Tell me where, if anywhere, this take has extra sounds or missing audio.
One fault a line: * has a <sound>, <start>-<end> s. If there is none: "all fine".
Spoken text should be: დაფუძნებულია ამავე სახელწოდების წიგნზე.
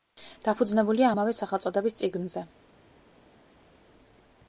all fine